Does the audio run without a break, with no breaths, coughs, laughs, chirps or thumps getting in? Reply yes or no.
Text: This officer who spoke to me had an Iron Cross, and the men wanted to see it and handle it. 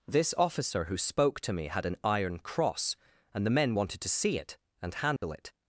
no